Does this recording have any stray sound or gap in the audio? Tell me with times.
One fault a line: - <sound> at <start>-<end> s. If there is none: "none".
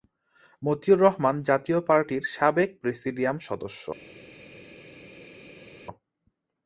none